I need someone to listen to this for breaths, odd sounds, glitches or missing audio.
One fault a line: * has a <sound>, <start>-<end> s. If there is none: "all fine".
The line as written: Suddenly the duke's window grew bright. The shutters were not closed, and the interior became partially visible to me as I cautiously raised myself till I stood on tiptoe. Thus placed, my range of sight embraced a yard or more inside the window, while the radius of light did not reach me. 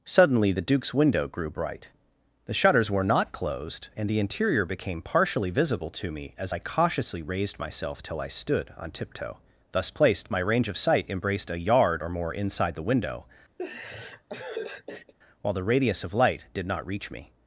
* has a laugh, 13.6-15.1 s